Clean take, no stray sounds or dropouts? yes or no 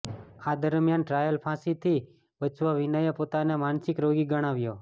yes